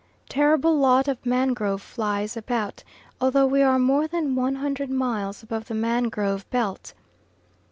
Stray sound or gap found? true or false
false